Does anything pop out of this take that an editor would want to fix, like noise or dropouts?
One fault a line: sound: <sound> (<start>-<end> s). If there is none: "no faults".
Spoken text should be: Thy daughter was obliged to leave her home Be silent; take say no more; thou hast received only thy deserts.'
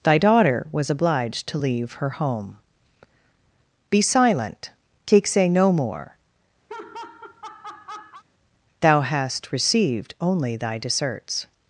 sound: laugh (6.7-8.2 s)